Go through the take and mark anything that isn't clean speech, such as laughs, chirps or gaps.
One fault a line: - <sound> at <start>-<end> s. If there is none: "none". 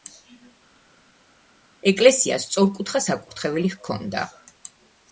none